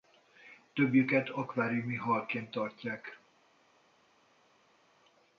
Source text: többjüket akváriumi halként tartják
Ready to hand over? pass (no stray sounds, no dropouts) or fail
pass